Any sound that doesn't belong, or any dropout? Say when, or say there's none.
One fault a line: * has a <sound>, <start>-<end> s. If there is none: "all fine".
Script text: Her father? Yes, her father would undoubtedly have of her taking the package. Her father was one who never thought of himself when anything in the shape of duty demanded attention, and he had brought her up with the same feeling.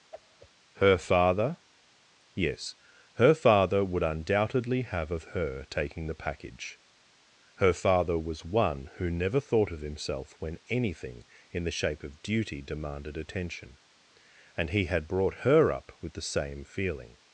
* has a whoosh, 0.1-0.5 s